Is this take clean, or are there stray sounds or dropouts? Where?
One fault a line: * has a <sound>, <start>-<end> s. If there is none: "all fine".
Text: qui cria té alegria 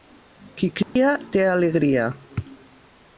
* has a dropout, 0.8-1.0 s